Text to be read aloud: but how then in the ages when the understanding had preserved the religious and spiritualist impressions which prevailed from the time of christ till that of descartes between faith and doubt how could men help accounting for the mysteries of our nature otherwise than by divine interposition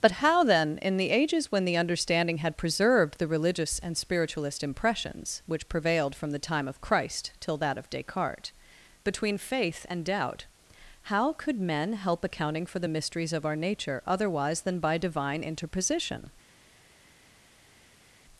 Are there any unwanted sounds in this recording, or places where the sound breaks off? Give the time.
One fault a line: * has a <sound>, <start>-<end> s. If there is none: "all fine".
all fine